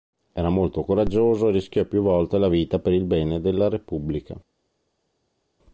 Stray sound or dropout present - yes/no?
no